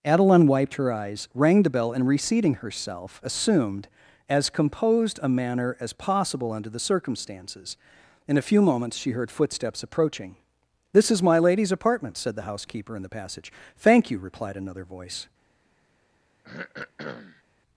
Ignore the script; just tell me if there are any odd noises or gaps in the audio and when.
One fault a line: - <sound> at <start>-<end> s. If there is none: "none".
- throat clearing at 16.4-17.4 s